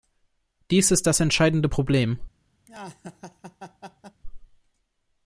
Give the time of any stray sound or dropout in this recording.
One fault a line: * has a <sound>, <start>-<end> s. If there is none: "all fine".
* has a laugh, 2.7-4.2 s